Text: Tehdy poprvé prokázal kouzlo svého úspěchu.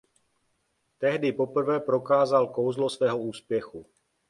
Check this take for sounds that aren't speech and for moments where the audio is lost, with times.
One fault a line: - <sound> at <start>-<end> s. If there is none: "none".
none